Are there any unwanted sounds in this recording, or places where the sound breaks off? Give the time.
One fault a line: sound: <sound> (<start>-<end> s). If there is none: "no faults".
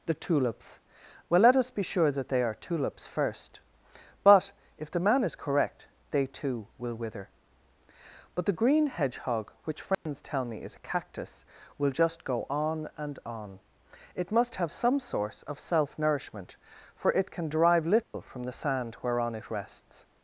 sound: dropout (9.9-10.1 s)
sound: dropout (18.0-18.1 s)